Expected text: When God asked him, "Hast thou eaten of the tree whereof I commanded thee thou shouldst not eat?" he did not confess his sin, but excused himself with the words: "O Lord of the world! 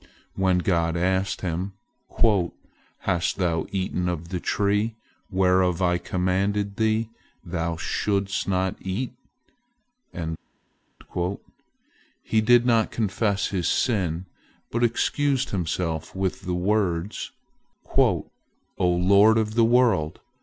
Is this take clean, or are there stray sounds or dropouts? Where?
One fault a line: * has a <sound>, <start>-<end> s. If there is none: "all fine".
all fine